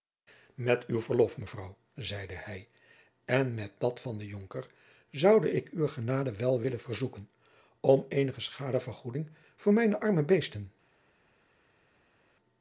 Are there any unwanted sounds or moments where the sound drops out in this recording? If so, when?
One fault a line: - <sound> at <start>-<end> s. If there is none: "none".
none